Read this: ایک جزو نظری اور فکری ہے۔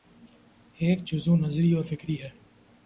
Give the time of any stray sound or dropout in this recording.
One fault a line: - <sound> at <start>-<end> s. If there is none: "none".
none